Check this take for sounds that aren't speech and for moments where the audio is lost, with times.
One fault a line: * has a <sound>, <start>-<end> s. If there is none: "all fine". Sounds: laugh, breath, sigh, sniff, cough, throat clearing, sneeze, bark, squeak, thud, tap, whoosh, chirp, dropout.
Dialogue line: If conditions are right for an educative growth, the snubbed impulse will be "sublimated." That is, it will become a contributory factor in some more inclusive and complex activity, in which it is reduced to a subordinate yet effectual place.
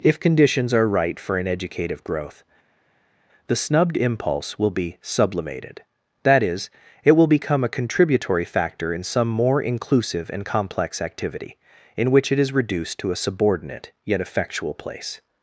all fine